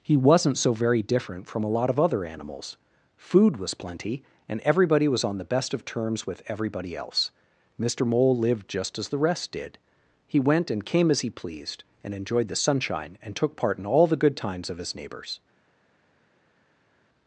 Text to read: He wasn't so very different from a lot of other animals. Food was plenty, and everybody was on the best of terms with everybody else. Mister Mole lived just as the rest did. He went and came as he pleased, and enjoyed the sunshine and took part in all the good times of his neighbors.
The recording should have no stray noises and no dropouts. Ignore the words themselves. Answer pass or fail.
pass